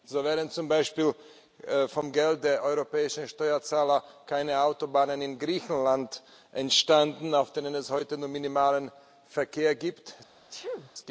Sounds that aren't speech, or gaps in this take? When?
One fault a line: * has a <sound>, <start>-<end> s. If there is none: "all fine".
* has a sneeze, 10.5-10.9 s